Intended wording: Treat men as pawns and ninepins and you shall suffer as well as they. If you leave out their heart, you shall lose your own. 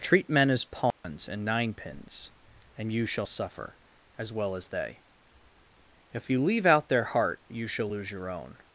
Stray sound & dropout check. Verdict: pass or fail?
fail